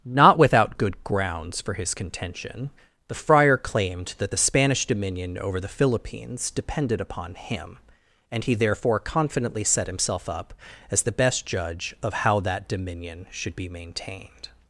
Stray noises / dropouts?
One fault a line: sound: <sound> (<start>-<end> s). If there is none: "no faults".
no faults